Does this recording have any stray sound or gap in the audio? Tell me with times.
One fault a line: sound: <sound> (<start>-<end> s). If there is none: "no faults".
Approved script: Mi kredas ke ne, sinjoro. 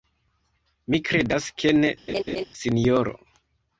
sound: laugh (2.1-2.4 s)